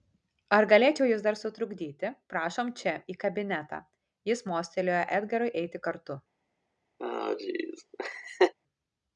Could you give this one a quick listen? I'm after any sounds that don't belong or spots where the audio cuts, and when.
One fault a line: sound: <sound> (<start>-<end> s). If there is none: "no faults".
sound: laugh (7.0-8.5 s)